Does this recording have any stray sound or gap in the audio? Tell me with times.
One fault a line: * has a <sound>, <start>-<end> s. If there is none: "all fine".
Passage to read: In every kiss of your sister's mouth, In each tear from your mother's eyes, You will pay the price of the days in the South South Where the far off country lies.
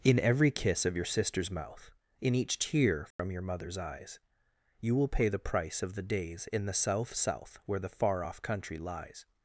* has a dropout, 3.1-3.2 s